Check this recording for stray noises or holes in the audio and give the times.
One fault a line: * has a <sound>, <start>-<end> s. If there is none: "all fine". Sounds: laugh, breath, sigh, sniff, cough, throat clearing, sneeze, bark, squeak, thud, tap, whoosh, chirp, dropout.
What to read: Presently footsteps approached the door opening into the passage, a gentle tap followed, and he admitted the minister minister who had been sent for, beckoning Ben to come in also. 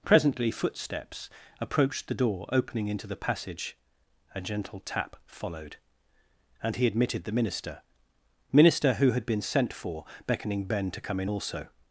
all fine